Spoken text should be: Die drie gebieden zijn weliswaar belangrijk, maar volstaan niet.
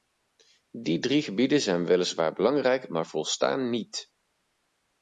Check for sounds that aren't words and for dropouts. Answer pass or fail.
pass